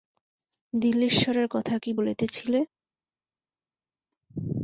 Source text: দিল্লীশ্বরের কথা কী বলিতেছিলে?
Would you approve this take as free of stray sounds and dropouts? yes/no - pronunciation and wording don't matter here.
yes